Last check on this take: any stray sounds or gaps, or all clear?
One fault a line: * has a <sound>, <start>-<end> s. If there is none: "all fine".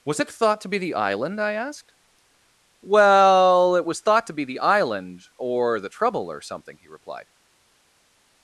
all fine